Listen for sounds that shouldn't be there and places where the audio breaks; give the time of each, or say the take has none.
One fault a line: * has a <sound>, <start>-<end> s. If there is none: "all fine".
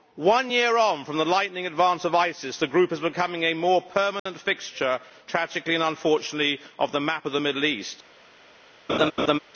* has a dropout, 4.2-4.3 s
* has a laugh, 8.9-9.4 s